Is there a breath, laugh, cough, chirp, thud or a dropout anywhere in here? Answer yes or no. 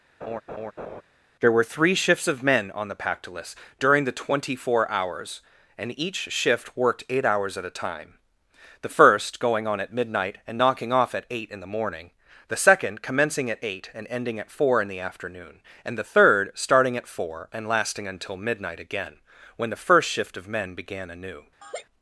yes